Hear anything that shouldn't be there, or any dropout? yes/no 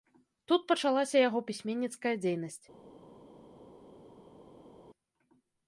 no